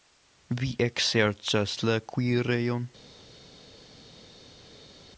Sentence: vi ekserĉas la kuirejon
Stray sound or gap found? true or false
false